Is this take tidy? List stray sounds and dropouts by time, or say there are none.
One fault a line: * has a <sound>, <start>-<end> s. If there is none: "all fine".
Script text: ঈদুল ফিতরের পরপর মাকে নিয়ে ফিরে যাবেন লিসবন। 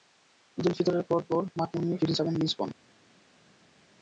all fine